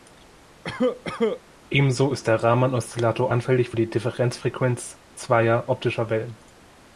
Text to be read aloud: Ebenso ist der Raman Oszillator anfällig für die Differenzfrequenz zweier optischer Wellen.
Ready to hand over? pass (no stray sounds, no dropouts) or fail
fail